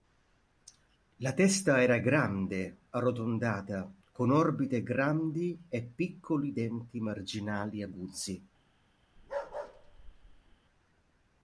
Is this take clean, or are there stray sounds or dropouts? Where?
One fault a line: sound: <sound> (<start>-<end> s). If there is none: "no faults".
sound: bark (9.2-10.6 s)